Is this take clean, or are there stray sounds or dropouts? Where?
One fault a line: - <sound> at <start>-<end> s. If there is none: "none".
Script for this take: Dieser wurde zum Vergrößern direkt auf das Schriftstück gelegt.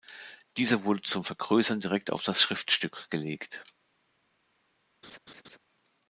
- laugh at 5.0-5.6 s